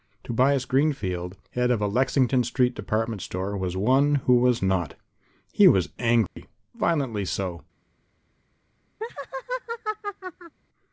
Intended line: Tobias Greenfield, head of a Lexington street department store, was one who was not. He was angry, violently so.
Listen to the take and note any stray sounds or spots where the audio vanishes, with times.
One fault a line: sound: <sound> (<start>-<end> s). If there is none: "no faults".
sound: dropout (6.3-6.4 s)
sound: laugh (9.0-10.6 s)